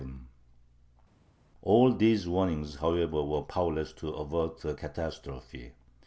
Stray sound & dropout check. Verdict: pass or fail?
pass